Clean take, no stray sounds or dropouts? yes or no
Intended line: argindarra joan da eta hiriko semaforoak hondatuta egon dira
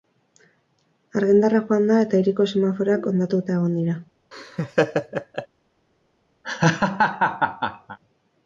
no